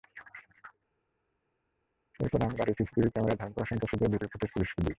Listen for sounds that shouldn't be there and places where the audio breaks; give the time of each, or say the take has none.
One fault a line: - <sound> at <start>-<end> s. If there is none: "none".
none